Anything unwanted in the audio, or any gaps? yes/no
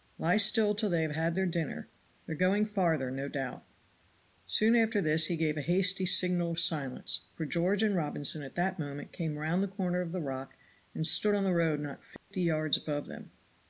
yes